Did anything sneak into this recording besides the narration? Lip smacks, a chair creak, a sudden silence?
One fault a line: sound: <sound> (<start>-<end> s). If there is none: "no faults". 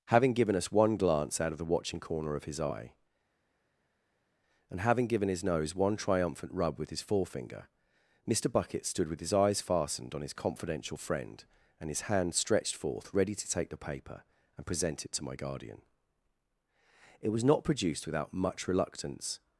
no faults